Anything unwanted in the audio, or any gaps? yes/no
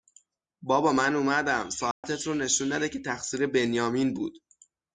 yes